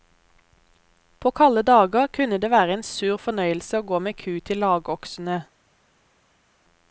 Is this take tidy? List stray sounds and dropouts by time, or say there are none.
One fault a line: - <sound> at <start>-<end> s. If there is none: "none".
none